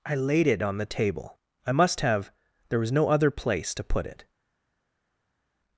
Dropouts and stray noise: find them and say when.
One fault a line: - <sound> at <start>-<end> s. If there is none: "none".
none